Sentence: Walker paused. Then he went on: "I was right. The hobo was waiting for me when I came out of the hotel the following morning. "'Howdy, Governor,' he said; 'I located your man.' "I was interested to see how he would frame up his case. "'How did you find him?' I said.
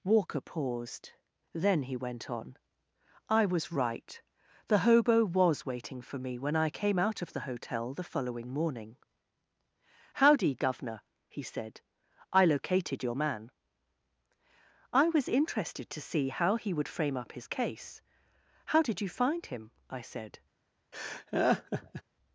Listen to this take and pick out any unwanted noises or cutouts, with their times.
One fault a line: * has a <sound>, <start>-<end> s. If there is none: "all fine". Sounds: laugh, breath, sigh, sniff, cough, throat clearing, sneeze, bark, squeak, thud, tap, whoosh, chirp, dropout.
* has a laugh, 20.9-22.0 s